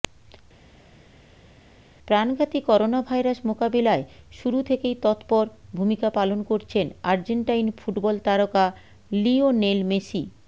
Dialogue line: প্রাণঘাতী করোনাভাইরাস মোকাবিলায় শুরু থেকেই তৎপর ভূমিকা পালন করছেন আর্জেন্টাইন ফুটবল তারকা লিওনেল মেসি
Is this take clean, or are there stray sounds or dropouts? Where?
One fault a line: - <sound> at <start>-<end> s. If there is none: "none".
none